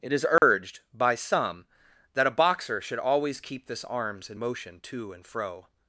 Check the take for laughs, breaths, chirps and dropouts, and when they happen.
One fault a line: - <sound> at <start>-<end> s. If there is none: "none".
- dropout at 0.4-0.4 s